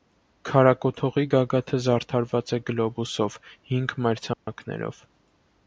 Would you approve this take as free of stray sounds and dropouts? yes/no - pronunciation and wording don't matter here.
no